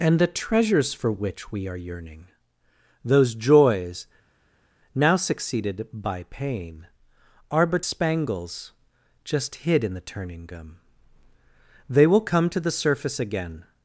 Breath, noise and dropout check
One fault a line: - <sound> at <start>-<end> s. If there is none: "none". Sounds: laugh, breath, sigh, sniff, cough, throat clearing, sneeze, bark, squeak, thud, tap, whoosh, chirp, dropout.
none